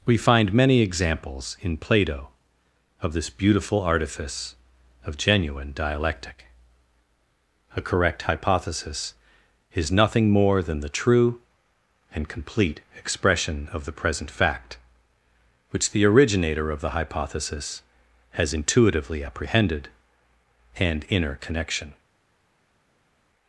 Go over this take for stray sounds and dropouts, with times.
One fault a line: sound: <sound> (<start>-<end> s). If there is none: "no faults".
no faults